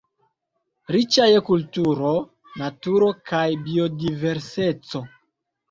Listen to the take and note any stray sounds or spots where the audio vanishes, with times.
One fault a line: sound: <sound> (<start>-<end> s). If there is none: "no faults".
no faults